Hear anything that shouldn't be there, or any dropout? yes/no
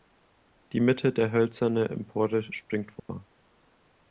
yes